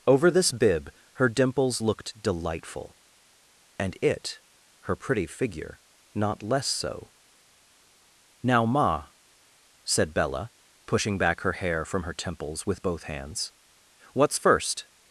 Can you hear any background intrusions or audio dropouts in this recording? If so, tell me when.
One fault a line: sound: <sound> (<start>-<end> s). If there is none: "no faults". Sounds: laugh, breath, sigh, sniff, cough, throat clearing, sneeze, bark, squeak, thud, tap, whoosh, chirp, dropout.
no faults